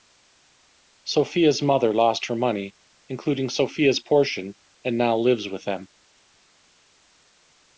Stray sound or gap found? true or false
false